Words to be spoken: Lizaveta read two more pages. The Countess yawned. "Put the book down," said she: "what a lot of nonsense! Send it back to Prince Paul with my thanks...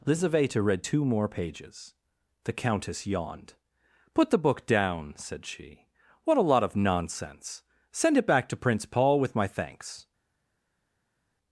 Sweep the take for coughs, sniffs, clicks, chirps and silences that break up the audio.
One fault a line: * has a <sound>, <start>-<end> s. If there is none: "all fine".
all fine